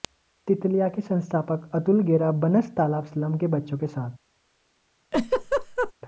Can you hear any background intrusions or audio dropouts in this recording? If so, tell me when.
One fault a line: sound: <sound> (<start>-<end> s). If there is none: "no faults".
sound: laugh (5.1-5.9 s)